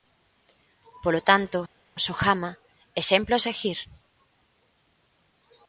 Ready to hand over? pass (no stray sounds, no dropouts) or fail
pass